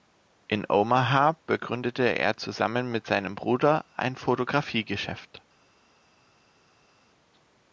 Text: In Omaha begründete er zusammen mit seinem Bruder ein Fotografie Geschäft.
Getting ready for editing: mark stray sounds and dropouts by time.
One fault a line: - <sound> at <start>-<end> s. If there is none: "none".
none